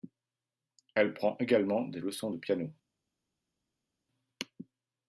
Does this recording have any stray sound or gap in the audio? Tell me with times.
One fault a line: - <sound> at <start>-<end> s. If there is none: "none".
none